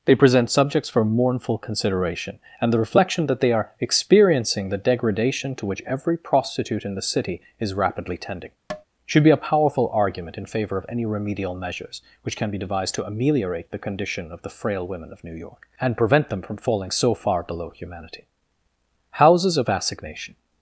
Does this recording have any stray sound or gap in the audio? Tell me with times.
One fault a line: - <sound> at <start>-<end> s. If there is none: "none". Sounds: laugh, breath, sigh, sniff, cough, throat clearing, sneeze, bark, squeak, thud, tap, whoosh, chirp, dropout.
- tap at 8.7-8.8 s